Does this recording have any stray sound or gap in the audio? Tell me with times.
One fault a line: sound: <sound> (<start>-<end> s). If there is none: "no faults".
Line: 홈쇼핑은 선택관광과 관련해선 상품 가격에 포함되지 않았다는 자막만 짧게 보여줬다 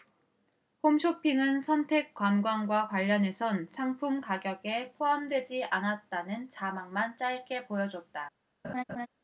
sound: laugh (8.6-9.1 s)